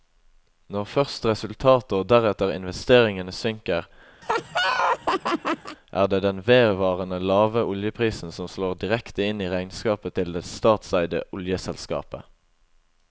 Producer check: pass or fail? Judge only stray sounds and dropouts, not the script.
fail